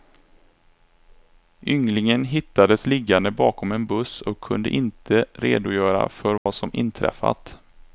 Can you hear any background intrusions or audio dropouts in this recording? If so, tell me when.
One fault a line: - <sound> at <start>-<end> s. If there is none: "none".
- dropout at 6.4-6.5 s